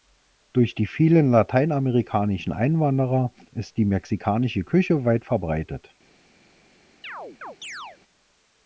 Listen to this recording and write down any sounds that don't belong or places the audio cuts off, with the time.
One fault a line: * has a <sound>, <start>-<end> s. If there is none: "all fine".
* has a chirp, 7.0-8.0 s